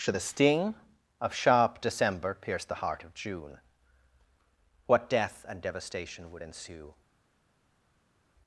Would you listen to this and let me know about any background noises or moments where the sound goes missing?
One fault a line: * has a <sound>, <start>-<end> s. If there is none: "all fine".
all fine